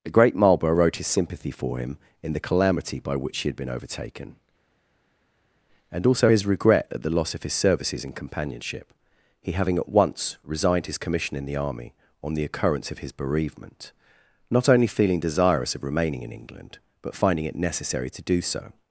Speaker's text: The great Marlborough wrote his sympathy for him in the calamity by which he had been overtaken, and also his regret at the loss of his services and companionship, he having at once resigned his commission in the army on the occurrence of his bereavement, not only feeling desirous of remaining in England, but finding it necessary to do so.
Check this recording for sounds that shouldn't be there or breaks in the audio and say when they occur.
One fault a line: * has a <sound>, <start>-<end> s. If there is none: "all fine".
all fine